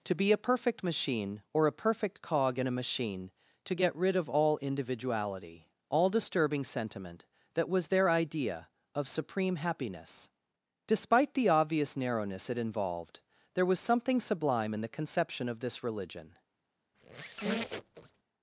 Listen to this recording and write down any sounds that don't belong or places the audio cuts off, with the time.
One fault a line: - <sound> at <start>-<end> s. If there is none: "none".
- squeak at 16.9-18.2 s